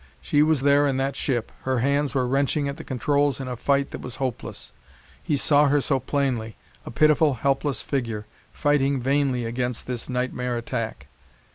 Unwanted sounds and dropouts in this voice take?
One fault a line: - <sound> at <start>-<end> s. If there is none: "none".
none